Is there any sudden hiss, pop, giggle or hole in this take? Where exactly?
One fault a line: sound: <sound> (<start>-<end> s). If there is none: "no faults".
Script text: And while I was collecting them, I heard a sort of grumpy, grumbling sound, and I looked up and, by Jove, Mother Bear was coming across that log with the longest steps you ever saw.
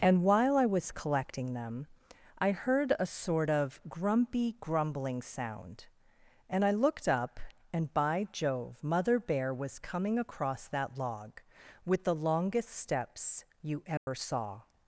sound: dropout (14.0-14.1 s)